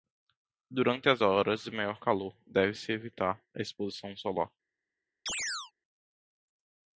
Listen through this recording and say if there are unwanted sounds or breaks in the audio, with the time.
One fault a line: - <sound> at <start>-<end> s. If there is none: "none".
- chirp at 5.3-5.7 s